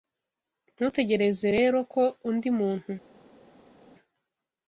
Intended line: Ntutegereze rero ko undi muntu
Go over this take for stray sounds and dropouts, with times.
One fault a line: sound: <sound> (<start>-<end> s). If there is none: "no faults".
no faults